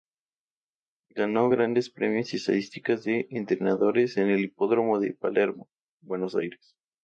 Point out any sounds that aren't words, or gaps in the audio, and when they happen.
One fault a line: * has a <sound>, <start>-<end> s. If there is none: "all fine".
all fine